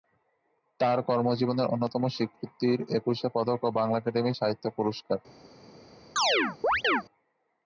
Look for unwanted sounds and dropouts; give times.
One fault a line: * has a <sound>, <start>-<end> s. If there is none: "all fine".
* has a chirp, 6.2-7.0 s